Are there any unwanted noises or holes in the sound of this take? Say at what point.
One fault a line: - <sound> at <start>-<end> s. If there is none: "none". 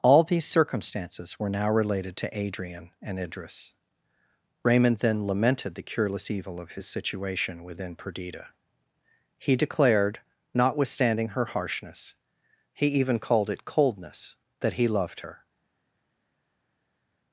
none